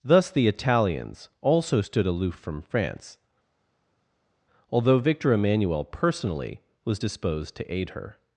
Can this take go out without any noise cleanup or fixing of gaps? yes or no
yes